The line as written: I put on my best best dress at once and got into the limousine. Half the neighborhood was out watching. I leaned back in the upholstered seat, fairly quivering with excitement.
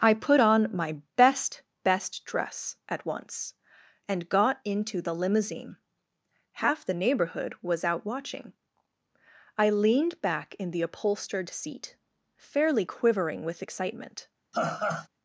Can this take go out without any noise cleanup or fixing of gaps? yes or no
no